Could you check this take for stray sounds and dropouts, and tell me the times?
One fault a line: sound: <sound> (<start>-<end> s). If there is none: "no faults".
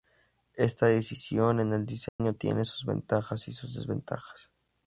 sound: dropout (2.1-2.2 s)